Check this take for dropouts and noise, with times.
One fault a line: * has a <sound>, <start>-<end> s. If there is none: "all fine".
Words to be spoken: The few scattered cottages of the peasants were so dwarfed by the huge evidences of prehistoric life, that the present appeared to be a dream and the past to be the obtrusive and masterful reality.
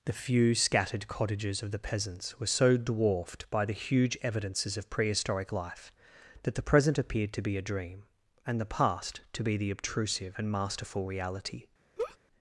* has a laugh, 12.0-12.2 s